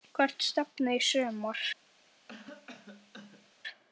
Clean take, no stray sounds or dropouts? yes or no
no